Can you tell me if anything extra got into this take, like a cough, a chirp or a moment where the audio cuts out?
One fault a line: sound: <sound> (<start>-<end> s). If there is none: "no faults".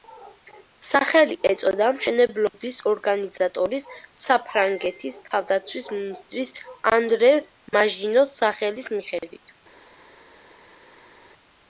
no faults